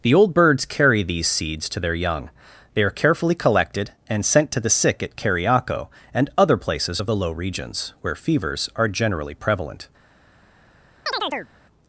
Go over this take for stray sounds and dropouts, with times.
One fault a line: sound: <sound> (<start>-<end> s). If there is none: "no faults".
sound: chirp (11.1-11.5 s)